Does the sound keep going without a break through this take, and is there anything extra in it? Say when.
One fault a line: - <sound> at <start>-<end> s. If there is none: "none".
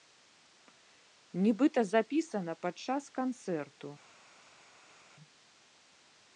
none